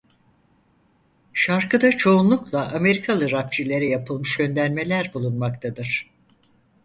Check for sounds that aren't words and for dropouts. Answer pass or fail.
pass